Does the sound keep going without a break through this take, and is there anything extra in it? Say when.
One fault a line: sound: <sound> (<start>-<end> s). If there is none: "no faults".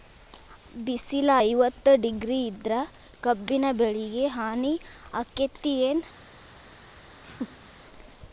sound: laugh (7.2-7.7 s)